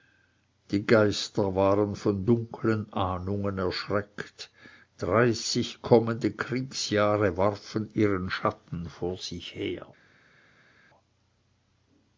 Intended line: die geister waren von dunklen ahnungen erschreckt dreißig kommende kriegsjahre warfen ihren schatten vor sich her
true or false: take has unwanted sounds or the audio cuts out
false